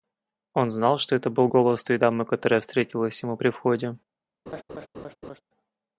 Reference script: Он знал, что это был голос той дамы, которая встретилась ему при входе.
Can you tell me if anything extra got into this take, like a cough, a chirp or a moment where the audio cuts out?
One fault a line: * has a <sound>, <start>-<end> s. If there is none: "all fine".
* has a laugh, 4.5-5.4 s